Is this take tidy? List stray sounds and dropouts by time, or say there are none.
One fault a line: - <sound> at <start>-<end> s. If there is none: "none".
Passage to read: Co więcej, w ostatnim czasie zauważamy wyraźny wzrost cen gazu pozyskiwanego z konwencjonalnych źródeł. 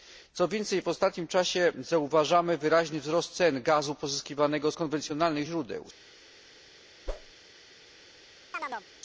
- whoosh at 7.1-7.3 s
- chirp at 8.5-8.9 s